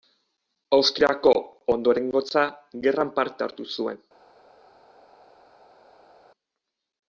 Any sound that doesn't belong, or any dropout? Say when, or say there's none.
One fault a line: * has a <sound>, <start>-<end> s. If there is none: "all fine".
all fine